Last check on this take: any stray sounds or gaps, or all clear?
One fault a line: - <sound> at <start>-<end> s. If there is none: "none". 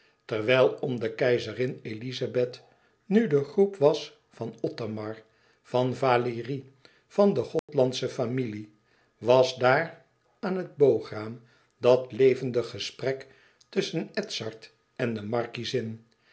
- dropout at 7.6-7.7 s